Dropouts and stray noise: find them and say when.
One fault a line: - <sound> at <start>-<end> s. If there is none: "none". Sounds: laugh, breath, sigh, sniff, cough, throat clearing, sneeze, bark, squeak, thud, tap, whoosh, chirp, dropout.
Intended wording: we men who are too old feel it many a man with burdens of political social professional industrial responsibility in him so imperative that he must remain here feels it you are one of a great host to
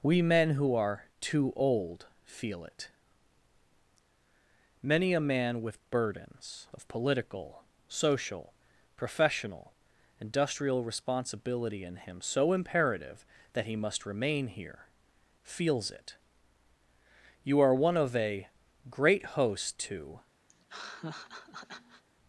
- laugh at 20.5-22.0 s